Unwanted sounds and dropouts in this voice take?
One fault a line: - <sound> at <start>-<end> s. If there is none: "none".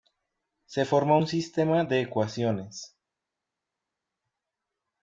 none